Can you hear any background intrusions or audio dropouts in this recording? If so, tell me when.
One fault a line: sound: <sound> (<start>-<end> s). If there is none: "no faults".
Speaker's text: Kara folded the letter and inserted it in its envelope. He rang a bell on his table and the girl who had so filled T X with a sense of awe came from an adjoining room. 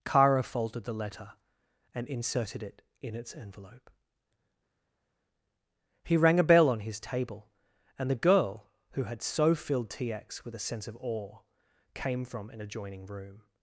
no faults